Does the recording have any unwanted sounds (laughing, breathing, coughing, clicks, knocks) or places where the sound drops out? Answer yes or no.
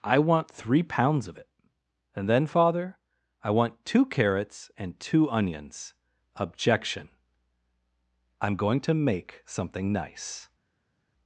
no